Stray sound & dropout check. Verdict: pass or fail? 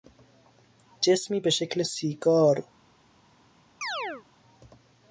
fail